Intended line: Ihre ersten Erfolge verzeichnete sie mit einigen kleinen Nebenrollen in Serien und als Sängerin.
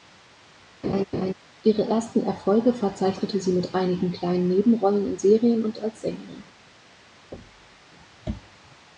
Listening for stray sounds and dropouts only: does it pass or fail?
fail